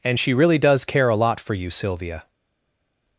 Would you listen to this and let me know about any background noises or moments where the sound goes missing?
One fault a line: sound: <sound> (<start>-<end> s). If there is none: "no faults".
no faults